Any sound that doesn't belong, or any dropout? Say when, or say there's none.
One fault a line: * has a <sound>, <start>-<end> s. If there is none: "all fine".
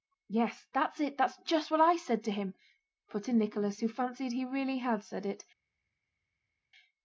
all fine